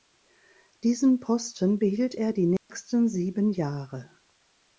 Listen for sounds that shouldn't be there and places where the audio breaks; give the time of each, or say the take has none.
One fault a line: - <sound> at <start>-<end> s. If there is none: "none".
- dropout at 2.6-2.7 s